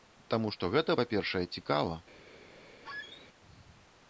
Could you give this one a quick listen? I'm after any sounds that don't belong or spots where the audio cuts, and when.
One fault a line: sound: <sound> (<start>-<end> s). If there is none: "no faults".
sound: squeak (2.8-3.3 s)